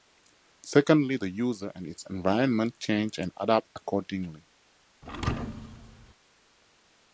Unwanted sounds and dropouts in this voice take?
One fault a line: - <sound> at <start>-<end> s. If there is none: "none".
- thud at 5.0-6.1 s